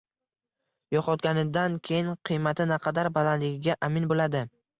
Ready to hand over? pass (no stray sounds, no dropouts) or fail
pass